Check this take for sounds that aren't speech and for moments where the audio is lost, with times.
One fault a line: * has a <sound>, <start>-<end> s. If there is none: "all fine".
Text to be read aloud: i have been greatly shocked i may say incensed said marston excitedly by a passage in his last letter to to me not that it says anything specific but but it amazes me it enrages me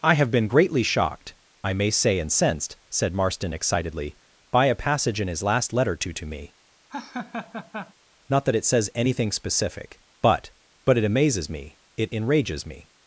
* has a laugh, 6.9-7.9 s